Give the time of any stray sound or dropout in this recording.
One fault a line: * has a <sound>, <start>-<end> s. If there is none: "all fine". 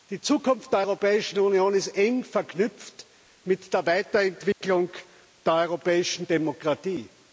* has a dropout, 4.5-4.6 s